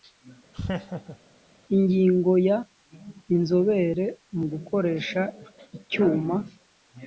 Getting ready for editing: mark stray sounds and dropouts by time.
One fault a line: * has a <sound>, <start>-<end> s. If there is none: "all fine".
* has a laugh, 0.5-1.2 s